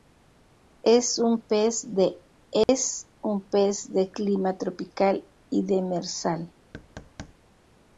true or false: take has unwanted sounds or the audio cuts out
true